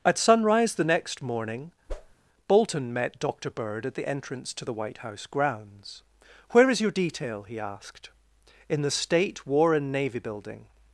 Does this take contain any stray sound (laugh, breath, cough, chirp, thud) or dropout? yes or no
yes